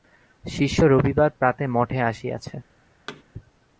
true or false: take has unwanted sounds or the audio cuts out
true